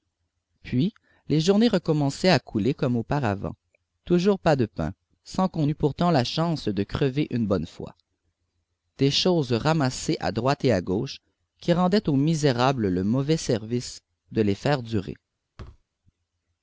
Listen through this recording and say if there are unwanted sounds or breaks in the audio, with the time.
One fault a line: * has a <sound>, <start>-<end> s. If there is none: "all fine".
* has a thud, 15.6-15.8 s